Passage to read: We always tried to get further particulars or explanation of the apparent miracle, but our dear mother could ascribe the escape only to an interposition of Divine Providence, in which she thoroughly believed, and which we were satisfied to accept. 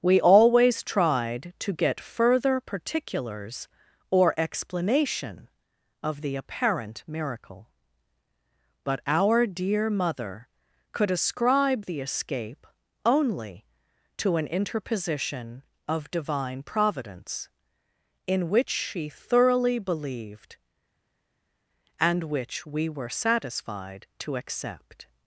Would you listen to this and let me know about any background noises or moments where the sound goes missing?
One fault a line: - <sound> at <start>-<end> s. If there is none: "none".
none